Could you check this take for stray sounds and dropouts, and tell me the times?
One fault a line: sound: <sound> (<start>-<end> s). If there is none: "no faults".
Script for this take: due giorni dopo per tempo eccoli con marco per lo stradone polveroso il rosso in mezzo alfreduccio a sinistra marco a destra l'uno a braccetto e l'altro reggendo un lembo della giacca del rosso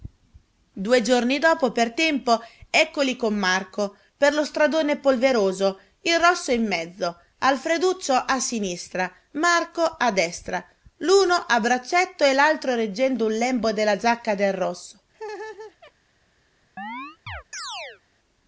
sound: laugh (15.1-15.9 s)
sound: chirp (16.8-18.0 s)